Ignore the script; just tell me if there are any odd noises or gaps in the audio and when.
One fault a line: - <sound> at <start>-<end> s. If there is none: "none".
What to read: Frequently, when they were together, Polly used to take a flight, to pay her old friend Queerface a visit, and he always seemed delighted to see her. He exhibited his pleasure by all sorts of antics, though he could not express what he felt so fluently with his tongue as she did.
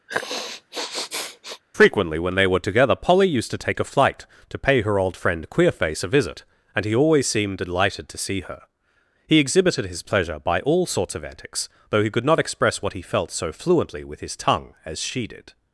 - sniff at 0.1-1.6 s